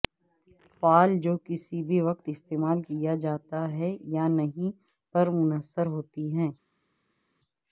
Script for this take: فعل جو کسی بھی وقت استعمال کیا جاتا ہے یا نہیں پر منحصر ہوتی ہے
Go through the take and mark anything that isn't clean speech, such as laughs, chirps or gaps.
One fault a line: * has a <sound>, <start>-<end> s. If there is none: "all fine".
all fine